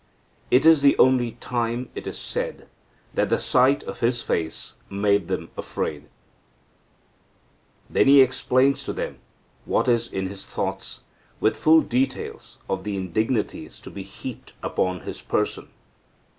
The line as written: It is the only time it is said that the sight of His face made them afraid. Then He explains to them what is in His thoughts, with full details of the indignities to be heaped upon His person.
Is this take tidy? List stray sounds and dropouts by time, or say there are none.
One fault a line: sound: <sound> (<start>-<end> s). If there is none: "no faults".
no faults